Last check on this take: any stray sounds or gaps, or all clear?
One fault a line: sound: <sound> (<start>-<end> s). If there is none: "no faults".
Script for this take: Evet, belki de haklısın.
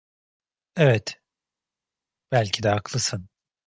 no faults